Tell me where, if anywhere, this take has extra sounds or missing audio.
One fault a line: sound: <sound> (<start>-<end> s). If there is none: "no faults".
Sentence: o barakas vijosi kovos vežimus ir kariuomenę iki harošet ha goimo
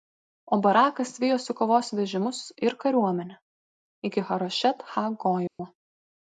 sound: dropout (5.5-5.6 s)